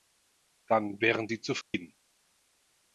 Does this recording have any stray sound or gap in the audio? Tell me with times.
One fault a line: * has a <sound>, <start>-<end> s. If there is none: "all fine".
* has a dropout, 1.6-1.7 s